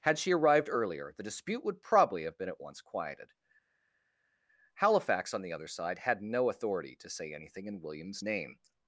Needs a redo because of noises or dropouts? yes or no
no